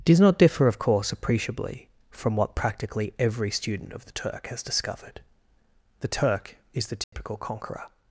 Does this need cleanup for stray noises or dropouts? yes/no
yes